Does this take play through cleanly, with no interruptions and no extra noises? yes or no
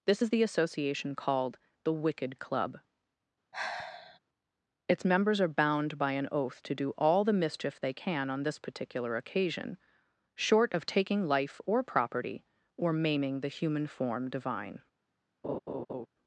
no